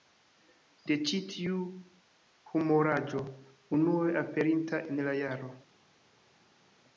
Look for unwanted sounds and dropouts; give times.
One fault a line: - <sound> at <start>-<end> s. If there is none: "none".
none